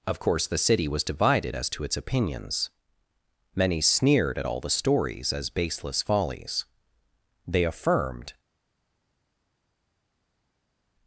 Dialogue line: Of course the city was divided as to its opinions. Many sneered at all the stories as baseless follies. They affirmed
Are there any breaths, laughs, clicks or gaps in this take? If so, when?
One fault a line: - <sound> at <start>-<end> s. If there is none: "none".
none